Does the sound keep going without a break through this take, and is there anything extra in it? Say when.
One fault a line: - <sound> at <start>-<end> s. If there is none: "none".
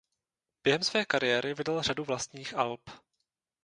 none